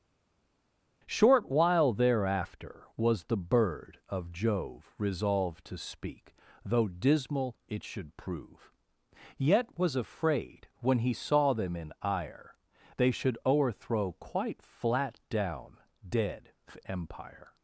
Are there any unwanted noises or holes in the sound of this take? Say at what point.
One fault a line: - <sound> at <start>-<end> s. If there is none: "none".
none